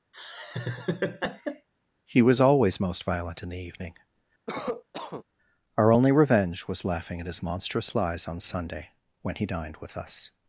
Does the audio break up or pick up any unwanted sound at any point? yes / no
yes